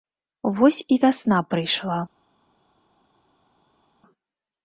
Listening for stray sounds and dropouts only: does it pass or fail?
pass